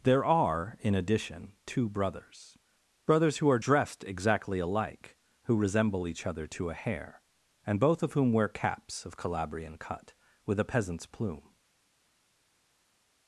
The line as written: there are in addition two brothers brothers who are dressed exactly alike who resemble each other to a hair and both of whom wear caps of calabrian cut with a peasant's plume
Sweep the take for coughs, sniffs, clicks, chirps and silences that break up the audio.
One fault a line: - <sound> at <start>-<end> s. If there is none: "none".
none